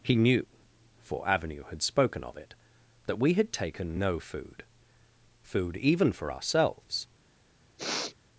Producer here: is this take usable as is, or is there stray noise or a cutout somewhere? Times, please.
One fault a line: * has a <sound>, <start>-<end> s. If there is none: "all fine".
* has a sniff, 7.8-8.2 s